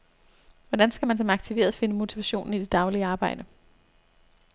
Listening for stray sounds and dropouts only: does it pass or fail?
pass